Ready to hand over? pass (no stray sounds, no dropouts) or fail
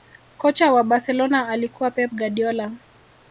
pass